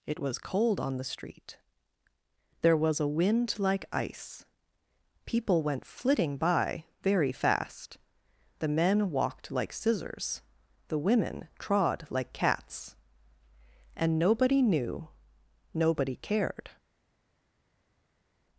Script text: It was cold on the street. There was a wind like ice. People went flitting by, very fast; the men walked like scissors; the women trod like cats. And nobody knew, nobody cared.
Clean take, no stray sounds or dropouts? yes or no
yes